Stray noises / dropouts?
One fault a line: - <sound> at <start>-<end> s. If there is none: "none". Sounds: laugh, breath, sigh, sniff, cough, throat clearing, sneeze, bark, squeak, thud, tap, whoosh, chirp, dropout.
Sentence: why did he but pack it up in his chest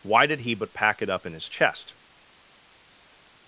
none